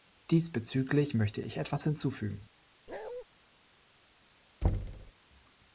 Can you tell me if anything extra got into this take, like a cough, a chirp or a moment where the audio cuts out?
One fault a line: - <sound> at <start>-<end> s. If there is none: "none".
- bark at 2.9-3.2 s
- thud at 4.6-5.1 s